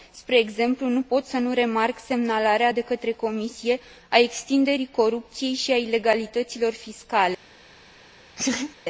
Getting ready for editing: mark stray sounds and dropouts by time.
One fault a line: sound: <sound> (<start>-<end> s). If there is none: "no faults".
sound: laugh (8.4-8.8 s)